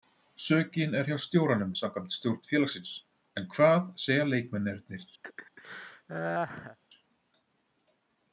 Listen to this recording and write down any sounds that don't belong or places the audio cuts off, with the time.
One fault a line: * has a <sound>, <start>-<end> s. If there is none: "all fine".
* has a laugh, 5.2-6.8 s